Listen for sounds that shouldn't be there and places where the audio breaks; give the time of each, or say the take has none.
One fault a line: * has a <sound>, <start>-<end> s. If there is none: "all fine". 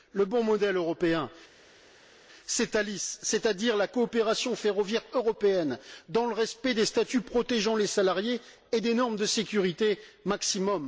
all fine